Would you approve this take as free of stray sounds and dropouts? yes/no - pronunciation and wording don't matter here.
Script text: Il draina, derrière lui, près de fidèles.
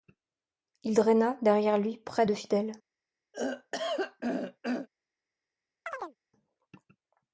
no